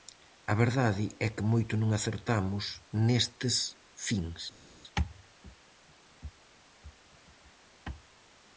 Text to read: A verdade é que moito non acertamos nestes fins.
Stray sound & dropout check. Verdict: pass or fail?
pass